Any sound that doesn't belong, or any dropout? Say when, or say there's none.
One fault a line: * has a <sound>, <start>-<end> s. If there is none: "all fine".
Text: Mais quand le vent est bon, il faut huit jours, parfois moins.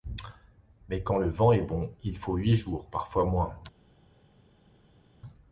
all fine